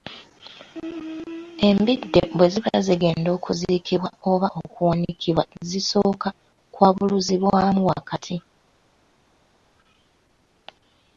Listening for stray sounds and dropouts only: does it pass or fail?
pass